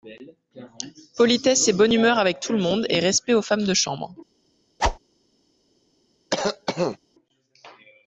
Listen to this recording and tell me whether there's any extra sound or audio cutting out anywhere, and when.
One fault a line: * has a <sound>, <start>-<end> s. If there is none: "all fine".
* has a whoosh, 4.8-5.0 s
* has a cough, 6.3-7.0 s